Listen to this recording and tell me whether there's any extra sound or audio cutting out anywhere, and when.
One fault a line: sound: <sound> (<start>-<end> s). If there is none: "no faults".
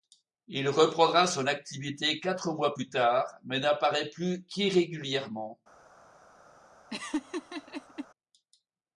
sound: laugh (6.9-8.1 s)